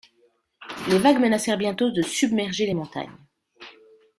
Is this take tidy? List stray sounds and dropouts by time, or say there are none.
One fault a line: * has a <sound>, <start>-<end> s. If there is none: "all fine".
all fine